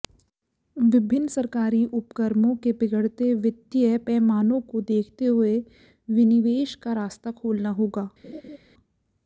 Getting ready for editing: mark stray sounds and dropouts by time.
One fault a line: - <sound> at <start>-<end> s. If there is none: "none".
- laugh at 8.2-8.6 s